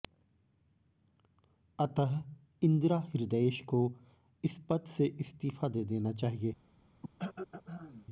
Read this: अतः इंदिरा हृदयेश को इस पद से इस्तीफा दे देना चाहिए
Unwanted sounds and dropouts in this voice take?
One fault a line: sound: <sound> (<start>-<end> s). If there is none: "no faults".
sound: throat clearing (7.0-8.1 s)